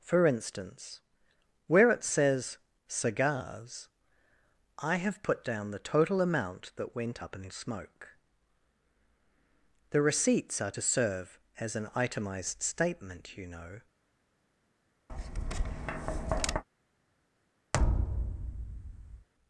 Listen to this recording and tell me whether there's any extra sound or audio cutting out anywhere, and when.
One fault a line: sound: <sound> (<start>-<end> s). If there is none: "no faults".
sound: tap (15.1-16.6 s)
sound: thud (17.7-19.3 s)